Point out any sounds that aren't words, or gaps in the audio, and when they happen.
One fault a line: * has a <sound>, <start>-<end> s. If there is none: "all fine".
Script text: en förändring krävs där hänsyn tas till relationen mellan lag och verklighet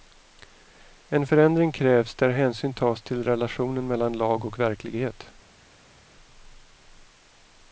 all fine